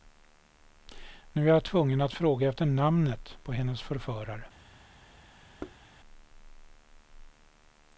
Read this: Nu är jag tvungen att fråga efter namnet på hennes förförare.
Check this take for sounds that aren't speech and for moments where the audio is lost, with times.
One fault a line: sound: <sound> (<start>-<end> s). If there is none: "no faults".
sound: thud (5.6-5.8 s)